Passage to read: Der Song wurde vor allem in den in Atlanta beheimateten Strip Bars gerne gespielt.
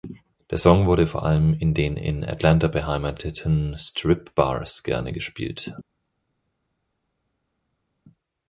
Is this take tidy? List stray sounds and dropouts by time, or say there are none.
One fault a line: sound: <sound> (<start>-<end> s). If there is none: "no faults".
no faults